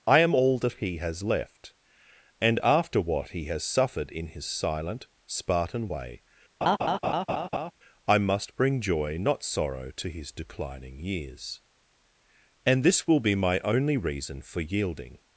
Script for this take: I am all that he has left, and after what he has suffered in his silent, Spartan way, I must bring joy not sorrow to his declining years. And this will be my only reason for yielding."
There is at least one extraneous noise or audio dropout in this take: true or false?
true